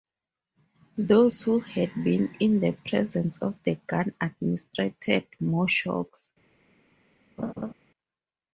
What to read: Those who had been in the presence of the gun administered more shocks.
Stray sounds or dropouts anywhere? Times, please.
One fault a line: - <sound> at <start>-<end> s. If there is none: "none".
- laugh at 7.4-7.7 s